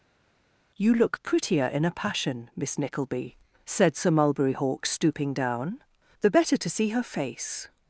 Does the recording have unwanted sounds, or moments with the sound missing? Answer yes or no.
no